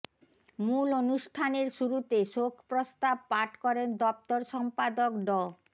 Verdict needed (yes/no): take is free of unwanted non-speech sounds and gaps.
yes